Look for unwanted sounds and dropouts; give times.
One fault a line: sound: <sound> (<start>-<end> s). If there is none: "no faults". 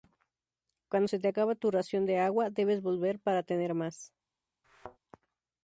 sound: thud (4.6-5.0 s)